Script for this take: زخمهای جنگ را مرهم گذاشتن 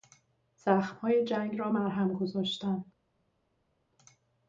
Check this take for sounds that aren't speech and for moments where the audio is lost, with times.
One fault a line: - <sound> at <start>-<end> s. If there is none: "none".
none